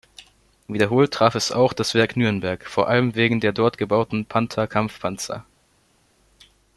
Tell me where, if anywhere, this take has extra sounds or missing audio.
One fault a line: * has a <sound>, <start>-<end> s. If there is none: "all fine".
all fine